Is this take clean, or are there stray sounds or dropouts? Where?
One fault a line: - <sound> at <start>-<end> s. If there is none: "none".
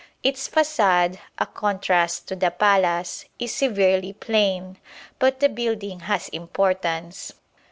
none